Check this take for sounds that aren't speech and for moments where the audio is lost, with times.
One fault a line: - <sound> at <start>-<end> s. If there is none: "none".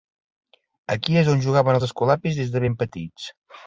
none